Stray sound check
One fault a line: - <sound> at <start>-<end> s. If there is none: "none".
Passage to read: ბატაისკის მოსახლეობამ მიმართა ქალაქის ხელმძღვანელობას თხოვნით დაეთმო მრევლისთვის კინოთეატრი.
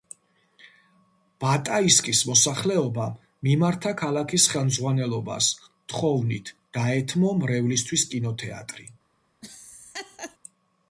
- laugh at 9.4-10.4 s